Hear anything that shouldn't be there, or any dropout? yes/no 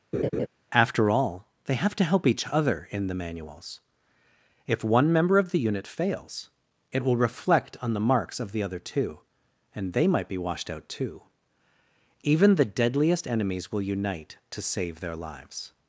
yes